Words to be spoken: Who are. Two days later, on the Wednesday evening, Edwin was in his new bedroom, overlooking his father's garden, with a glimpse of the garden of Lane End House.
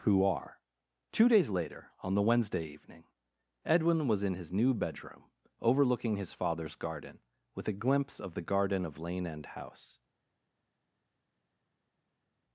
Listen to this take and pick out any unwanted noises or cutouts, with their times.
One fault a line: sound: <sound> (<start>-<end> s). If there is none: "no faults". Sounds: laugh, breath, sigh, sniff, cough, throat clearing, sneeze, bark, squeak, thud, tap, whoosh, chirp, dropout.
no faults